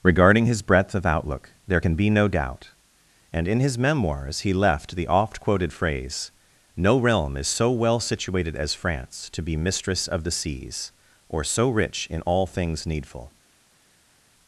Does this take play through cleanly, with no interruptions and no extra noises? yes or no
yes